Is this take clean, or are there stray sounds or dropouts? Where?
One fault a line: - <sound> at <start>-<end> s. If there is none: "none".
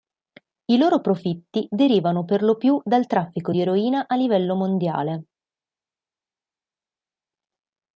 none